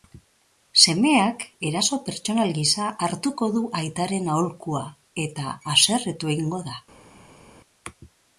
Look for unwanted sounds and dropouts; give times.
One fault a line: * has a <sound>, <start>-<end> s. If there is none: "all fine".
all fine